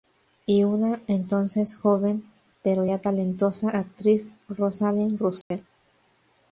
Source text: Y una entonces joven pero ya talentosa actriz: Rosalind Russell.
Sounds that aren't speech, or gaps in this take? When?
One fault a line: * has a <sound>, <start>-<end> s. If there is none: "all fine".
* has a dropout, 5.4-5.5 s